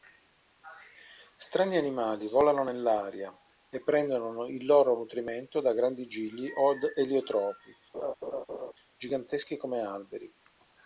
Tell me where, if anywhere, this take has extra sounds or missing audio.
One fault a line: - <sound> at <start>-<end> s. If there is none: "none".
- laugh at 7.9-8.7 s